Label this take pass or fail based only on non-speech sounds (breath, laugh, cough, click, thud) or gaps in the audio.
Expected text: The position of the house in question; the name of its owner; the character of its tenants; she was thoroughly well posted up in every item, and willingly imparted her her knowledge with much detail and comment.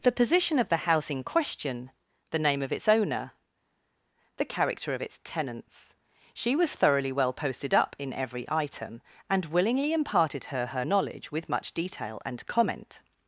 pass